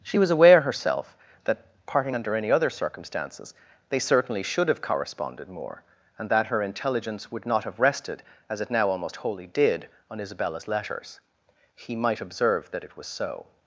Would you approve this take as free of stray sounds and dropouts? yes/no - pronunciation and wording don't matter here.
yes